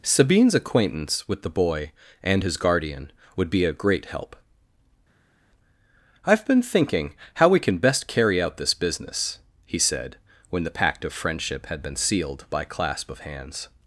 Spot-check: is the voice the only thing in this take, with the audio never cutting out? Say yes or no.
yes